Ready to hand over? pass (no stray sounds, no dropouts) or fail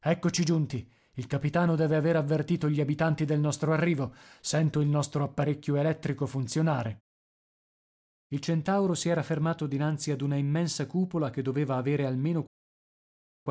pass